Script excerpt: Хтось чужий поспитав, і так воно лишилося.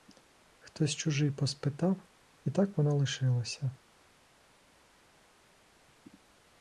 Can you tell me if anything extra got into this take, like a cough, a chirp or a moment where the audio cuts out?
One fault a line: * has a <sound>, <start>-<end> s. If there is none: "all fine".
all fine